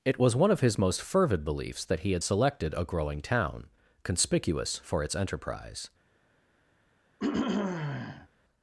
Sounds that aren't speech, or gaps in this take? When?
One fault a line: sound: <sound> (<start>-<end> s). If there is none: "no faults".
sound: throat clearing (7.2-8.3 s)